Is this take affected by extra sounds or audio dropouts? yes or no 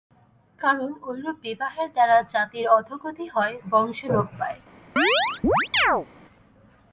yes